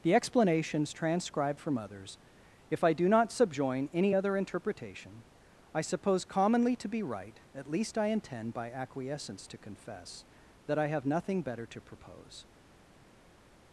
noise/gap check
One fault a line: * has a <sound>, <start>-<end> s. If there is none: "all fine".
all fine